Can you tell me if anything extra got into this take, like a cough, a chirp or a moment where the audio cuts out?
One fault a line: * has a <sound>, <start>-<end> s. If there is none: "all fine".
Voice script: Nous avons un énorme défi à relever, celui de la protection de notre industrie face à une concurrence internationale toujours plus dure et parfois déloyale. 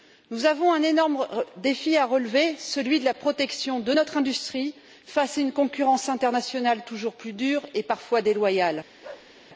* has a bark, 9.0-9.3 s